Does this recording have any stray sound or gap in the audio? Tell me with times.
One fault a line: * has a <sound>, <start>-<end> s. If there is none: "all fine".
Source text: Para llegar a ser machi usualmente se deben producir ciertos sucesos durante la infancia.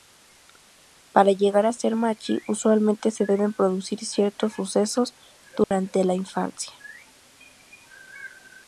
* has a dropout, 5.6-5.7 s